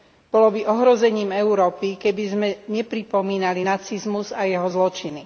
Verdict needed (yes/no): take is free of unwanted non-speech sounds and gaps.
yes